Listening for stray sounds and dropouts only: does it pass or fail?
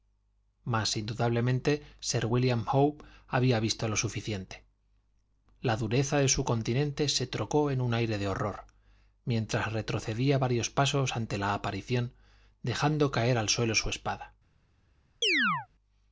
fail